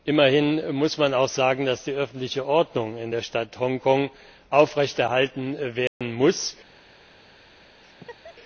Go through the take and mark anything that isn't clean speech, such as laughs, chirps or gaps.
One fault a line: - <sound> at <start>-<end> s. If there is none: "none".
- dropout at 5.9-6.0 s
- laugh at 7.8-8.4 s